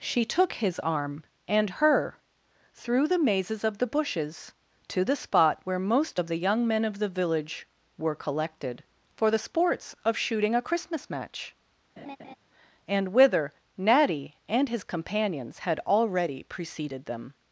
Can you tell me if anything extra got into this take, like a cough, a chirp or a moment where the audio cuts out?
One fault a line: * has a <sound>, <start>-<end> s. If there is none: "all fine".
* has a laugh, 12.0-12.4 s